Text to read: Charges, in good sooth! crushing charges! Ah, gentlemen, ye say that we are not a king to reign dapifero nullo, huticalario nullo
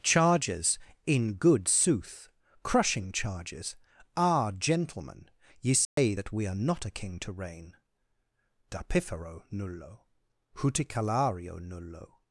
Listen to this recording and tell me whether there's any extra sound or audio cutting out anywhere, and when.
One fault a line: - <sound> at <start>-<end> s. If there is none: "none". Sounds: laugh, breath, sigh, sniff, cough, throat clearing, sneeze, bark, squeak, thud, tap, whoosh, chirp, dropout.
- dropout at 5.9-6.0 s